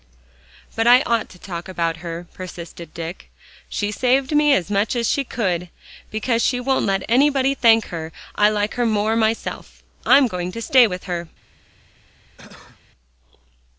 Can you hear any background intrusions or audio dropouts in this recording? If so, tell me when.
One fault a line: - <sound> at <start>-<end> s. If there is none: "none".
- cough at 12.4-12.8 s